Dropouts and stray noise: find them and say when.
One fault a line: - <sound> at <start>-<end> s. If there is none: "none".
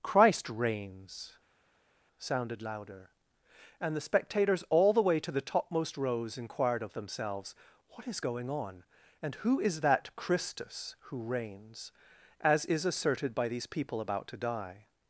none